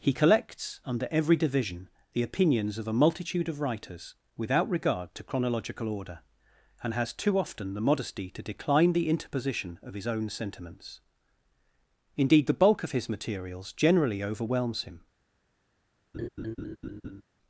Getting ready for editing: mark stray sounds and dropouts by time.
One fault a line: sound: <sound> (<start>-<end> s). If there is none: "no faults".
sound: laugh (16.1-17.2 s)